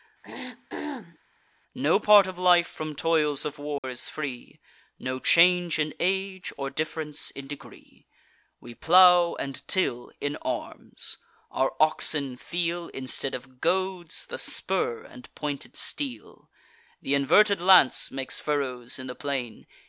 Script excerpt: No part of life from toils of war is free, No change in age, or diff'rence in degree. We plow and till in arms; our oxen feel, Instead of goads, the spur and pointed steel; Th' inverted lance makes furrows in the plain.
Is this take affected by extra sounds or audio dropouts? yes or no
yes